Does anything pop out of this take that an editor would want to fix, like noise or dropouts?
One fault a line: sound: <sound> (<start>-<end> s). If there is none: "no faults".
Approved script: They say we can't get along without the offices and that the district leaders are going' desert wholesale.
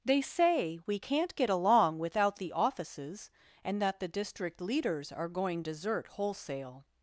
no faults